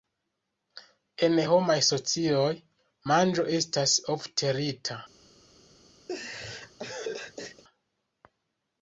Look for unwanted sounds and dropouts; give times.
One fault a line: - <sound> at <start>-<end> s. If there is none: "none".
- laugh at 6.1-7.6 s